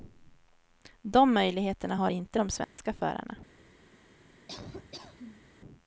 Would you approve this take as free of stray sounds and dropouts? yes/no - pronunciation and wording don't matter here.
no